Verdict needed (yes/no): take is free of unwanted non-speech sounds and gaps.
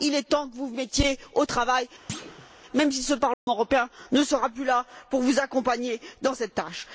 no